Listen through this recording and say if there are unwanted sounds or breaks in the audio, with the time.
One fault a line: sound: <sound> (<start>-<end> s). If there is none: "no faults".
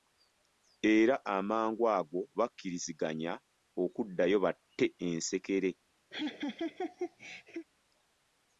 sound: laugh (6.1-7.7 s)